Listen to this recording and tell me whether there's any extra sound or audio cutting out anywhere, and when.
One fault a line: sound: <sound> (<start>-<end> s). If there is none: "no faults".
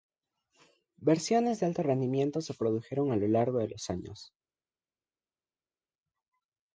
no faults